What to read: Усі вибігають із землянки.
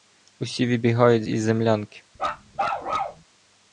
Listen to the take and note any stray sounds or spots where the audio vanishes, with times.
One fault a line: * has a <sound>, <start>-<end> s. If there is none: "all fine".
* has a bark, 2.2-3.2 s